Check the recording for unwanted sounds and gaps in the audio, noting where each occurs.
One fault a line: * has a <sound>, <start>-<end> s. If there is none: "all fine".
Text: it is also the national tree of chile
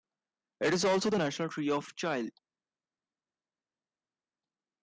all fine